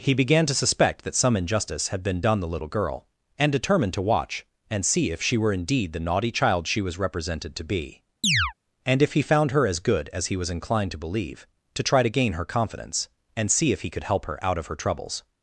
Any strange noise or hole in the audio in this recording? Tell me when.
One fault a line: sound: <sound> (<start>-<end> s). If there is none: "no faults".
sound: chirp (8.2-8.5 s)